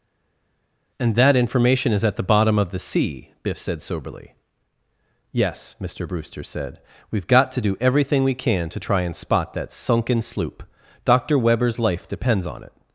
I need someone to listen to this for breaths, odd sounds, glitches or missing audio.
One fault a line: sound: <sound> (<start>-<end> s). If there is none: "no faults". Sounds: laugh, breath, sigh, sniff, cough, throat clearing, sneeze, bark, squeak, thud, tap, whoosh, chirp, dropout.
no faults